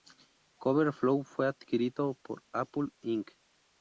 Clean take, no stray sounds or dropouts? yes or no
yes